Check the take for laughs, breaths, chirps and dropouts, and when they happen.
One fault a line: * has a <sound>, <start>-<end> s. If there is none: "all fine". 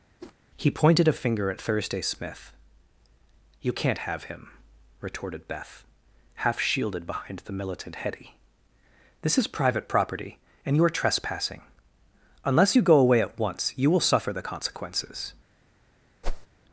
* has a whoosh, 0.2-0.4 s
* has a whoosh, 16.2-16.5 s